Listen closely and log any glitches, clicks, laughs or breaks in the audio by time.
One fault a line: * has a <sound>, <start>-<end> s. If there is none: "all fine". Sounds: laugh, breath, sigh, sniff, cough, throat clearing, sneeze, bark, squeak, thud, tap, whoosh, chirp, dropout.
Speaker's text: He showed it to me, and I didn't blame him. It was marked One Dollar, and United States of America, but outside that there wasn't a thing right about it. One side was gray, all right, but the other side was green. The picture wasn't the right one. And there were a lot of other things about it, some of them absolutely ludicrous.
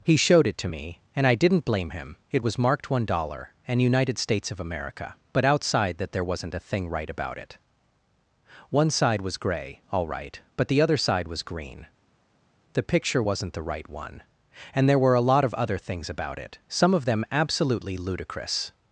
all fine